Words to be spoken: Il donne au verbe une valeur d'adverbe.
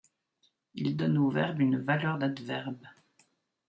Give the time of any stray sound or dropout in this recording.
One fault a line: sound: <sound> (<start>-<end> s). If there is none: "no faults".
no faults